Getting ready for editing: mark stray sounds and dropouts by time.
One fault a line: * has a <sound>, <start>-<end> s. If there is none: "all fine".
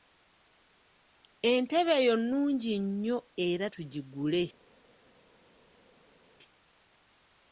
all fine